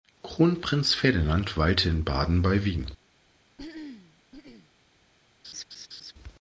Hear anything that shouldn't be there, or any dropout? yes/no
yes